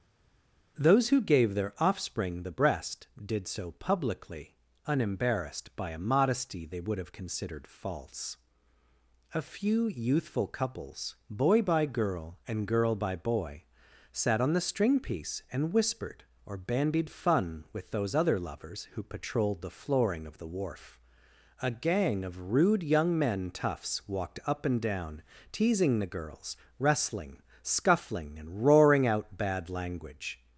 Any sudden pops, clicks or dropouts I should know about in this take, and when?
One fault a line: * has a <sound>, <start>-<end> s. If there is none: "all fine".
all fine